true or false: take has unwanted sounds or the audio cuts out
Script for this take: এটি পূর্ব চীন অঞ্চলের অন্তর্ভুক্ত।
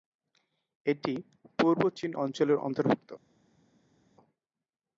false